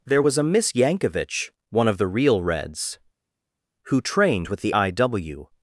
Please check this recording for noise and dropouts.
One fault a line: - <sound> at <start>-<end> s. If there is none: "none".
none